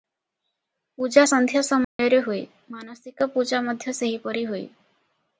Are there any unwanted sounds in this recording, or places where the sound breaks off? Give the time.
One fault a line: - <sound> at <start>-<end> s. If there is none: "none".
- dropout at 1.8-2.0 s